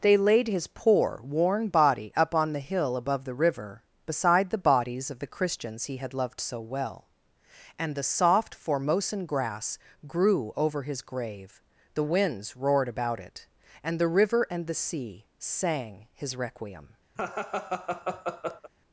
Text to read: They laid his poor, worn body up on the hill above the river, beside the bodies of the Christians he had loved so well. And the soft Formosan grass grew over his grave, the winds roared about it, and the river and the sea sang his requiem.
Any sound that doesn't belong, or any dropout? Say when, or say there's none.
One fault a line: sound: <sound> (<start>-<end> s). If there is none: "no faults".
sound: laugh (17.2-18.7 s)